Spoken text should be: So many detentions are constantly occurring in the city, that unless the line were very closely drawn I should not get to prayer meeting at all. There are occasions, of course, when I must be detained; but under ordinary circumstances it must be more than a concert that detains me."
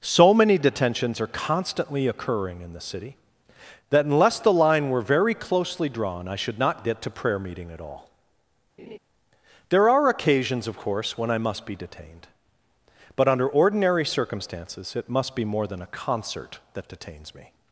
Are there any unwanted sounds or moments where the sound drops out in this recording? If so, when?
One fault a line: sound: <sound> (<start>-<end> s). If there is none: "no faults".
sound: laugh (8.8-9.0 s)